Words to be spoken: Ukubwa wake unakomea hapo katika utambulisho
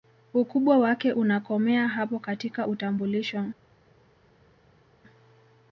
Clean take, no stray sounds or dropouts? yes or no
yes